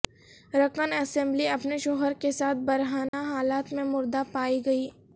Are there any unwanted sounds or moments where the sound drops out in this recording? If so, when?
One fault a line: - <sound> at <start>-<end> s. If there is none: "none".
- dropout at 3.1-3.1 s